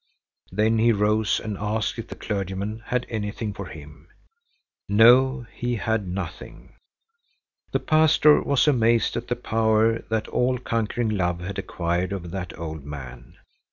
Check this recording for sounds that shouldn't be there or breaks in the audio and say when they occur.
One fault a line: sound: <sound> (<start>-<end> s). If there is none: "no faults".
no faults